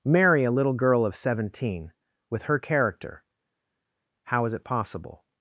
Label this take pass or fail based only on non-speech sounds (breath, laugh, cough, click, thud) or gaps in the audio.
pass